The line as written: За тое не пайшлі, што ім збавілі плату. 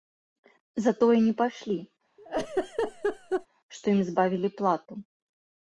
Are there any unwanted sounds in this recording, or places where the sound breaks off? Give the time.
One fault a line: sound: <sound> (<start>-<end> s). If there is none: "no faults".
sound: laugh (2.2-3.5 s)